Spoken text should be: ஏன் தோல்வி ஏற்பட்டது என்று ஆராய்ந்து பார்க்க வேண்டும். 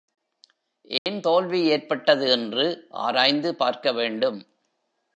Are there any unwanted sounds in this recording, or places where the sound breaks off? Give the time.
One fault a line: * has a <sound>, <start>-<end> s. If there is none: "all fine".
* has a dropout, 1.0-1.1 s